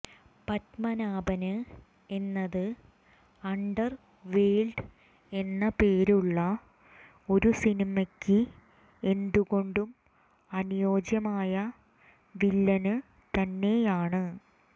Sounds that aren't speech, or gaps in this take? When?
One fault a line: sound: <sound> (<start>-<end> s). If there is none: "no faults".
no faults